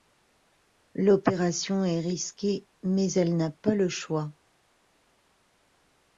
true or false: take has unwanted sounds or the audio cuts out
false